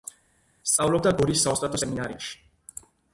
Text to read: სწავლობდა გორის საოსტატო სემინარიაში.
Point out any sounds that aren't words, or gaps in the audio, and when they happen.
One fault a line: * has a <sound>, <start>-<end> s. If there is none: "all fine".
all fine